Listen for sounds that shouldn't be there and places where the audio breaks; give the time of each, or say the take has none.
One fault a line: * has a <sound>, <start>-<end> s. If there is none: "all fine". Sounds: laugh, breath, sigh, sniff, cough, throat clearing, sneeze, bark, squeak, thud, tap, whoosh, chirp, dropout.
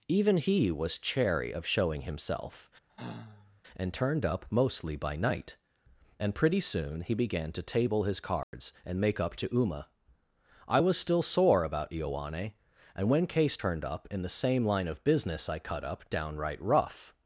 * has a sigh, 2.9-3.6 s
* has a dropout, 8.4-8.5 s